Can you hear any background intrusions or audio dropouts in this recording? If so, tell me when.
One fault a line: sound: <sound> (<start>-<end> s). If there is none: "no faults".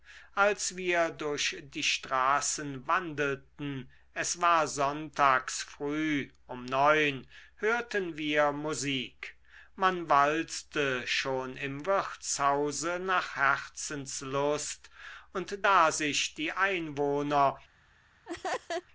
sound: laugh (18.3-18.9 s)